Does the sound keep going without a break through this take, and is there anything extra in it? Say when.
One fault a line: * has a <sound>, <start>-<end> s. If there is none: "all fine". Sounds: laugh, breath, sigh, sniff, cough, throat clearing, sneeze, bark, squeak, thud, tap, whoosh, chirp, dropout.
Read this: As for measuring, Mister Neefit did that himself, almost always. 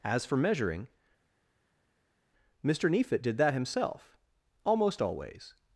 all fine